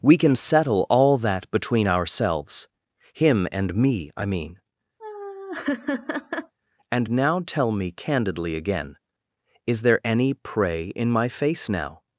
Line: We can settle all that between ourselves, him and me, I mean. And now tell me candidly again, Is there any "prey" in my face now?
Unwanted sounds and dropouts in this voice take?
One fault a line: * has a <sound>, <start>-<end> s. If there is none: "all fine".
* has a laugh, 5.0-6.5 s